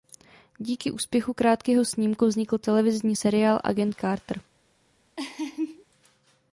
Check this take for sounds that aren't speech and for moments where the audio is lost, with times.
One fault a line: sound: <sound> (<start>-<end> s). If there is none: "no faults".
sound: laugh (5.2-5.8 s)